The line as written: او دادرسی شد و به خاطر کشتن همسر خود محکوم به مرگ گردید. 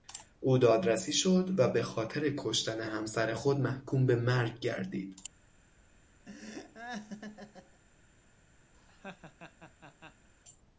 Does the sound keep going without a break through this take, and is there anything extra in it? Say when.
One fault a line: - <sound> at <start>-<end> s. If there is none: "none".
- laugh at 6.3-7.8 s
- laugh at 8.7-10.3 s